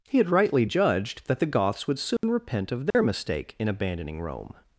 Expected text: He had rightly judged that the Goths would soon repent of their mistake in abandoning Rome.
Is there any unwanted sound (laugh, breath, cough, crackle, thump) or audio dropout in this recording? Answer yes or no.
yes